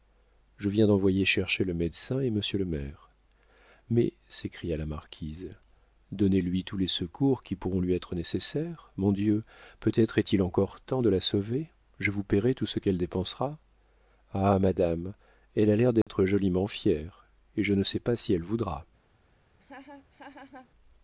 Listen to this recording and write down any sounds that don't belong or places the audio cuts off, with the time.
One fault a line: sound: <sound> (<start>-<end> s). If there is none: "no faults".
sound: dropout (16.0-16.1 s)
sound: laugh (19.6-20.7 s)